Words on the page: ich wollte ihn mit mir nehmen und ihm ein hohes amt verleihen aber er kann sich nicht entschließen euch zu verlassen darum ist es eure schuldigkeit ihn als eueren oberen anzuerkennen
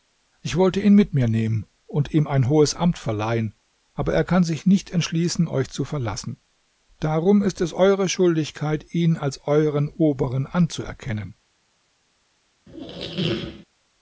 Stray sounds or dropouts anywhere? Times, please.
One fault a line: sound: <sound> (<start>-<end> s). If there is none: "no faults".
sound: squeak (12.7-13.7 s)